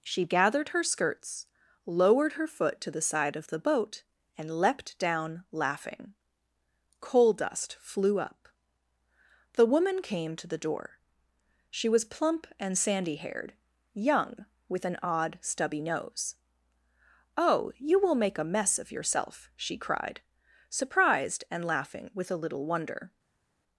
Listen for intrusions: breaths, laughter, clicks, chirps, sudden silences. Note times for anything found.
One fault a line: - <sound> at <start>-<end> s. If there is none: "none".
none